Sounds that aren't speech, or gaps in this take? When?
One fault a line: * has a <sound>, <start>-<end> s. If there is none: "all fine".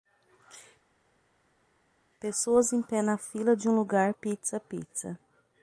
all fine